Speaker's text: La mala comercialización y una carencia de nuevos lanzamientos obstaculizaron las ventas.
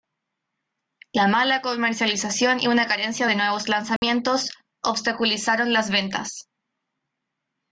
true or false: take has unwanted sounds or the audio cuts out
true